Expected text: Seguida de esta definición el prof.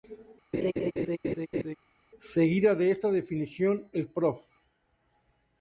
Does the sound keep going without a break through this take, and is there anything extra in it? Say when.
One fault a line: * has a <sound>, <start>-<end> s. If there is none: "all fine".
* has a laugh, 0.5-1.8 s